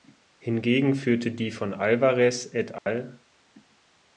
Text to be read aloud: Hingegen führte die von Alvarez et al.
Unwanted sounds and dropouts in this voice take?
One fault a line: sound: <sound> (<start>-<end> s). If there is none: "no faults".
sound: dropout (2.8-2.9 s)